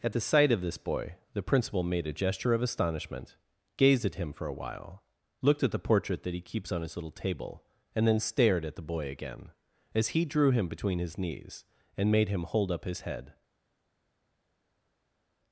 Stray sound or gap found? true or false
false